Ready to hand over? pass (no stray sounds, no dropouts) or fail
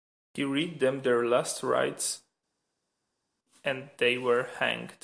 pass